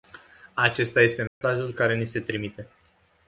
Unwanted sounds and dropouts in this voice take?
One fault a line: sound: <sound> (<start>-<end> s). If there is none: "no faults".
sound: dropout (1.3-1.4 s)